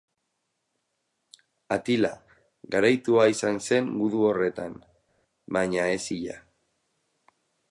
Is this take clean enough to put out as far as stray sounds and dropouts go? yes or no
yes